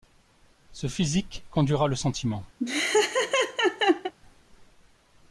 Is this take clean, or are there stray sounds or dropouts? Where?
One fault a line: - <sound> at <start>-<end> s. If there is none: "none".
- laugh at 2.6-4.1 s